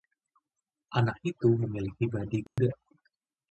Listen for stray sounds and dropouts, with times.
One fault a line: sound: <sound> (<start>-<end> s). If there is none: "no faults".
sound: dropout (2.5-2.6 s)